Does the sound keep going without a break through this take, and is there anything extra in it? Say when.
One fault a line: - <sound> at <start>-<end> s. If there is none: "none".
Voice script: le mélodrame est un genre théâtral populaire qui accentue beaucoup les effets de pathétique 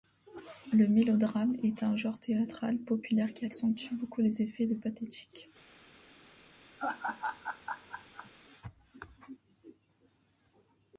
- laugh at 6.8-8.3 s